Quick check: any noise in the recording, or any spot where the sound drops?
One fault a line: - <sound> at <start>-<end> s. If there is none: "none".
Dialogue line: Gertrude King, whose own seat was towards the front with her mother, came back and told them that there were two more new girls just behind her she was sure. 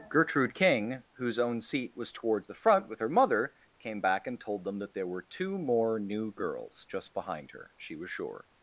none